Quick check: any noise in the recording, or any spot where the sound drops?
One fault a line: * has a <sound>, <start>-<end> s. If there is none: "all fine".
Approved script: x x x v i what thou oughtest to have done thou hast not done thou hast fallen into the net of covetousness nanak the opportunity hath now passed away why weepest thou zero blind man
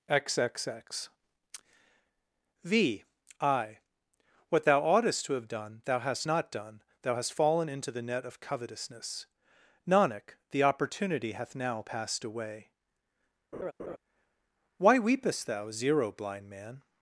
* has a laugh, 13.5-14.0 s